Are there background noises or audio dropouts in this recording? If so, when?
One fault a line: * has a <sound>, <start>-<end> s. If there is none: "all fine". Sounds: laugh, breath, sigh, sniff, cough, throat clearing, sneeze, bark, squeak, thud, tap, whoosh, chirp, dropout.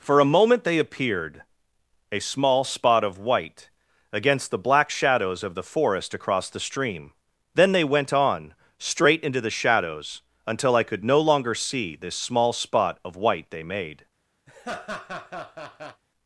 * has a laugh, 14.5-16.0 s